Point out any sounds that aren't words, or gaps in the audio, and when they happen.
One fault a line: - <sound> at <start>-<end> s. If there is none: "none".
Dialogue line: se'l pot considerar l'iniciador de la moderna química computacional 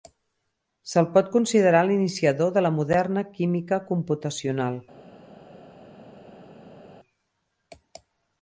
none